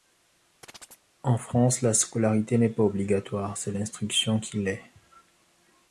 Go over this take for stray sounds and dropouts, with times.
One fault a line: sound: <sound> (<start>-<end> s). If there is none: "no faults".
sound: chirp (0.6-1.1 s)